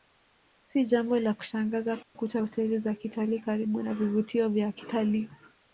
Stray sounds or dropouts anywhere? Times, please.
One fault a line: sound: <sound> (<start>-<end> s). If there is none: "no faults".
sound: dropout (2.0-2.2 s)